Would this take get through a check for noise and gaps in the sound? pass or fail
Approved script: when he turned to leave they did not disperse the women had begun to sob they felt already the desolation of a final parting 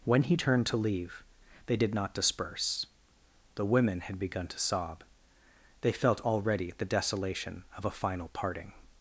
pass